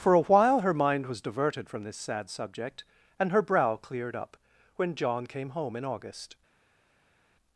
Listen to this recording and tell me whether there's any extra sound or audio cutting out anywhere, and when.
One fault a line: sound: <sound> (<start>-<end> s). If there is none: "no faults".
no faults